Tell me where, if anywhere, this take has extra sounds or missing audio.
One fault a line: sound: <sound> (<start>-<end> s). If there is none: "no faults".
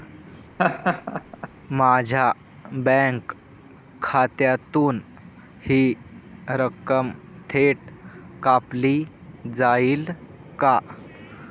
sound: laugh (0.6-1.5 s)